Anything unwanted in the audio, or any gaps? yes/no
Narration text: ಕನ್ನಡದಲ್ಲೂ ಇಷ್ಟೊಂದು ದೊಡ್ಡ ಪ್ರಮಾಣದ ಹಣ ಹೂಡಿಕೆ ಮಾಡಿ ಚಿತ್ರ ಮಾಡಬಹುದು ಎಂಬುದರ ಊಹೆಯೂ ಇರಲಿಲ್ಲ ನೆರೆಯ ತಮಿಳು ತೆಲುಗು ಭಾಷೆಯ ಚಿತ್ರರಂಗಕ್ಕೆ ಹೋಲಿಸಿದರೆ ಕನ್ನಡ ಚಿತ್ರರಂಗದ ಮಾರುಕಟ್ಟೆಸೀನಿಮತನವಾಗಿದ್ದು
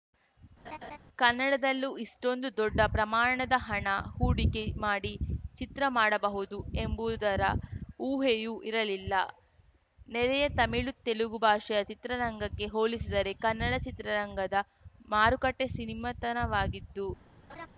yes